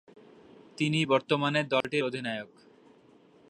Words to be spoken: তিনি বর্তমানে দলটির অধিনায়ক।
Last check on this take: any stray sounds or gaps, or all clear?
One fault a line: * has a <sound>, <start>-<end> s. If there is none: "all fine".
* has a dropout, 1.8-1.8 s